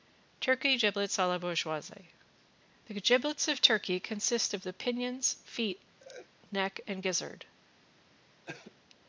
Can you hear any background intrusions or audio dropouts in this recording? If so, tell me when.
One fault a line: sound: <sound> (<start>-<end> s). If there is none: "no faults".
sound: laugh (6.0-6.3 s)
sound: cough (8.5-8.8 s)